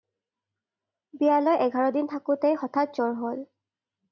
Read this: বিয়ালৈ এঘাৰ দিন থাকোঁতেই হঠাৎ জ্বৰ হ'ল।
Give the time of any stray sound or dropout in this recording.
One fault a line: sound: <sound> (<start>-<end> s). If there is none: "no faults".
no faults